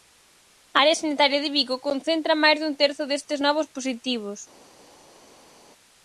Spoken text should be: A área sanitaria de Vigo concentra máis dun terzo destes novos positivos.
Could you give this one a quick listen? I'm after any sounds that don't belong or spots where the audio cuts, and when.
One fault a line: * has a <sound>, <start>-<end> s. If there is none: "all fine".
all fine